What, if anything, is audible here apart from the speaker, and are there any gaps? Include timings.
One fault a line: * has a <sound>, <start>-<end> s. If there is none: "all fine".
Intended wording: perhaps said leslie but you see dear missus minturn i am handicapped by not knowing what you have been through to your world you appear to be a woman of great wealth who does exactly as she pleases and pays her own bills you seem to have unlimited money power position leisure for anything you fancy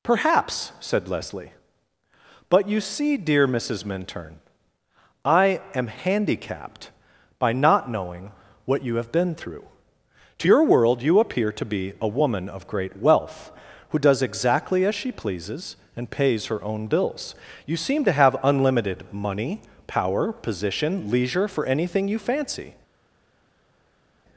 all fine